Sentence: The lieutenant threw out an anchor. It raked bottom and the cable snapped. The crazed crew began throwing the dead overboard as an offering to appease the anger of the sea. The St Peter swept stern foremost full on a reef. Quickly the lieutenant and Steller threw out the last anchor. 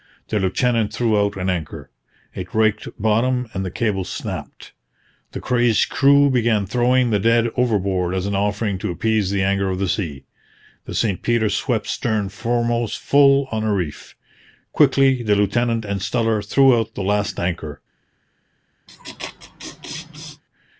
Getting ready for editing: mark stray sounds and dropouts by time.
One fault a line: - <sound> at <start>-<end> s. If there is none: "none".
- laugh at 18.9-20.4 s